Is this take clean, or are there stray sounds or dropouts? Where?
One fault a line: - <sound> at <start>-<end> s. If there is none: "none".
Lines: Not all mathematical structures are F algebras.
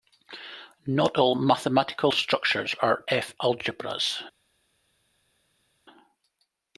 none